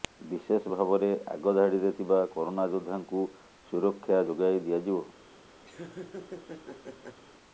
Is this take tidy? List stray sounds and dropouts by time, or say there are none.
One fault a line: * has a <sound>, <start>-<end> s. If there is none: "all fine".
* has a laugh, 5.6-7.2 s